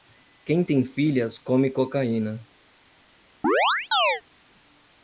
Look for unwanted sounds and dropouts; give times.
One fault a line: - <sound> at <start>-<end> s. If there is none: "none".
- chirp at 3.4-4.2 s